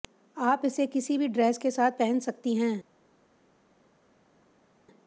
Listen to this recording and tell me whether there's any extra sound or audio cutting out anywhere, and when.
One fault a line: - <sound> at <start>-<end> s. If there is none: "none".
none